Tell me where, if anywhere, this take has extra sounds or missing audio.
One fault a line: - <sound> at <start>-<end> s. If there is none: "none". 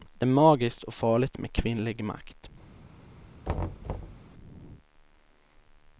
- thud at 3.4-4.2 s